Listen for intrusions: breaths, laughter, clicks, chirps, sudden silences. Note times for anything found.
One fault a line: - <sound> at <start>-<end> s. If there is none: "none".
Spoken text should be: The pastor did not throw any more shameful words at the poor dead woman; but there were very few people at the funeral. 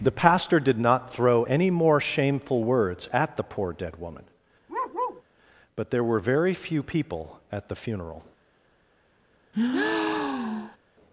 - bark at 4.7-5.2 s
- breath at 9.5-10.8 s